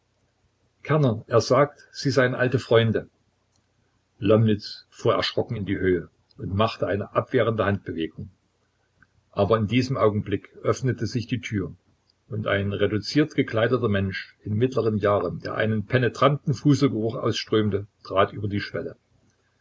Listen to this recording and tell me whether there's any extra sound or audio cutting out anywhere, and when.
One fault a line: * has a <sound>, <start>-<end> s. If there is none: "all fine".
all fine